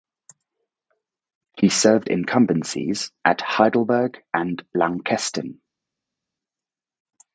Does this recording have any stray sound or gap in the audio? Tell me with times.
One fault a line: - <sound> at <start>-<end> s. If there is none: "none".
none